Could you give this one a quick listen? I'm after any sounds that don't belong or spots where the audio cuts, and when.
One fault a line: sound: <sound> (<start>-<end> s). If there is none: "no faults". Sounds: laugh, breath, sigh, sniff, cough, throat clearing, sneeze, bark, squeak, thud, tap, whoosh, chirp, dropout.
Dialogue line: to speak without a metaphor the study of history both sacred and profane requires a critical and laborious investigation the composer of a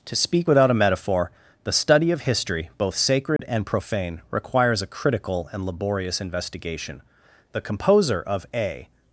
sound: dropout (3.4-3.4 s)